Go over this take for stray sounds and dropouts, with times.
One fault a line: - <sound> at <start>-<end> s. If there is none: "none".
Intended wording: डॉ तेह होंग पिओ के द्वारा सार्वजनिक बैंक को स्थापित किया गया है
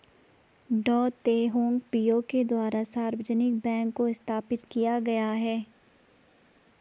none